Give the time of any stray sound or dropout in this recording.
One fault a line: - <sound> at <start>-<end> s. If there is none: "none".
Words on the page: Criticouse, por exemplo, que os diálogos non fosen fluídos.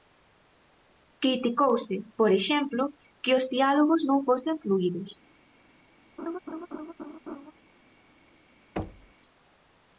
- laugh at 6.2-7.5 s
- thud at 8.8-9.1 s